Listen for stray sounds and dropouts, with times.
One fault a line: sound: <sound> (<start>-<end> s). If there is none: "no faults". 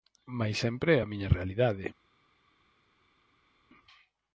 no faults